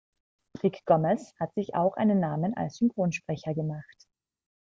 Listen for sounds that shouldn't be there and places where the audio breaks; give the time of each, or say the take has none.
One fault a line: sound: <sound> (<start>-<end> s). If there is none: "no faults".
no faults